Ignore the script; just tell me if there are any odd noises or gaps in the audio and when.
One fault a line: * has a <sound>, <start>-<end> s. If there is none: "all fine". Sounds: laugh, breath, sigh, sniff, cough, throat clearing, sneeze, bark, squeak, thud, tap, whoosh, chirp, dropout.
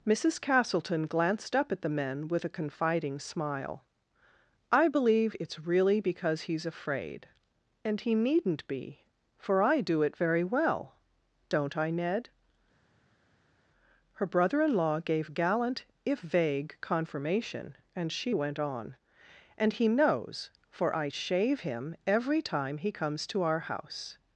all fine